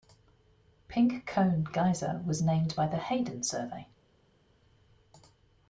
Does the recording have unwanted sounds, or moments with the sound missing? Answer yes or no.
no